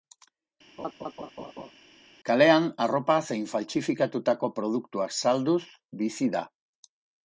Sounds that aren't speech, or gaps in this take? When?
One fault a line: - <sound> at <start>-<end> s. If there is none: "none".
- laugh at 0.8-1.7 s